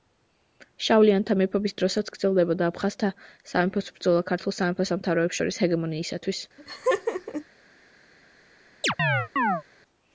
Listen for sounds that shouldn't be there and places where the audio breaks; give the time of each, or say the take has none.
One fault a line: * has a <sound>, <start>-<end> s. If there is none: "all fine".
* has a laugh, 6.6-7.4 s
* has a chirp, 8.8-9.6 s